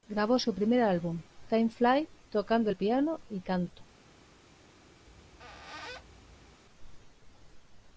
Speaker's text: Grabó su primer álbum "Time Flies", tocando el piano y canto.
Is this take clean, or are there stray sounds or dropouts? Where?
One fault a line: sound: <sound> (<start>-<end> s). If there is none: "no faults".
sound: squeak (5.1-6.6 s)